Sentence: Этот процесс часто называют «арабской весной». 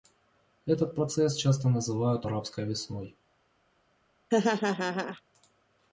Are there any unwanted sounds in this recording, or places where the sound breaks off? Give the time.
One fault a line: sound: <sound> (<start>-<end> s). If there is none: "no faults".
sound: laugh (4.3-5.2 s)